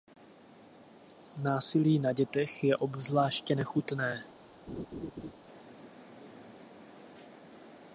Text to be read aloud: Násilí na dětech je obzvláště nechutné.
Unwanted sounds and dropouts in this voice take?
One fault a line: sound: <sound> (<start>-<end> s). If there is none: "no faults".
sound: laugh (4.7-5.3 s)